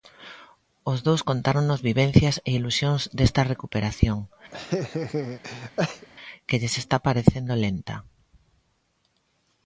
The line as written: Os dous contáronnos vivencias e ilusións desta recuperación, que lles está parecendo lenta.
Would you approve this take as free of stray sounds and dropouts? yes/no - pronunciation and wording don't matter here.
no